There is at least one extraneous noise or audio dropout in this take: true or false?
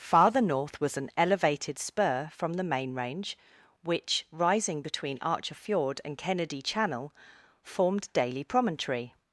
false